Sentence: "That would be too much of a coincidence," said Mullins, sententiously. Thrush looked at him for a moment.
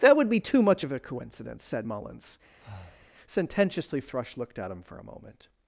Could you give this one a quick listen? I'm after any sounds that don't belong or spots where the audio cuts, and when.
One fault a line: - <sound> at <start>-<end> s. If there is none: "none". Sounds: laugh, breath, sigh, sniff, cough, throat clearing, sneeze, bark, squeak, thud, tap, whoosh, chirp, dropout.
- breath at 2.6-3.1 s